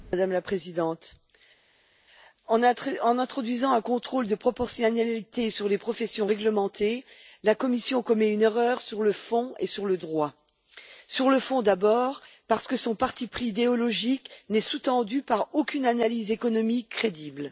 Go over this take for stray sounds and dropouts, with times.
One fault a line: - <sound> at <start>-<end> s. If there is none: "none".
none